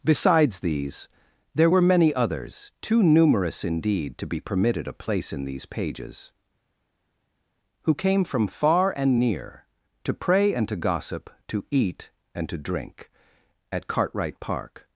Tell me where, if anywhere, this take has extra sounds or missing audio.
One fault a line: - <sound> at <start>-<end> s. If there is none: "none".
none